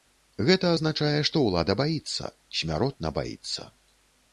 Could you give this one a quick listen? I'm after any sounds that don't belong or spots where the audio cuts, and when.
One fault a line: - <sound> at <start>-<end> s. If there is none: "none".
none